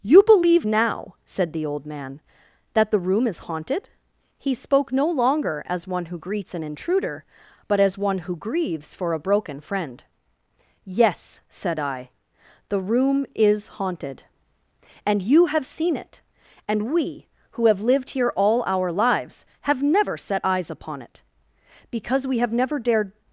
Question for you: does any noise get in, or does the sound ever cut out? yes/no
no